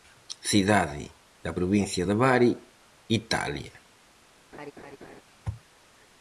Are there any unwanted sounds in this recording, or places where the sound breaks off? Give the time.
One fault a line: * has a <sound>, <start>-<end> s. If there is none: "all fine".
* has a laugh, 4.5-5.2 s